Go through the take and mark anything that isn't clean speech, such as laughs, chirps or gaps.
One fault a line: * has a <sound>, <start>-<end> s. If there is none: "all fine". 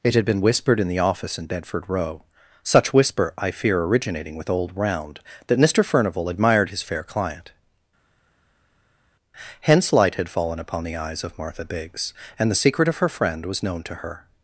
all fine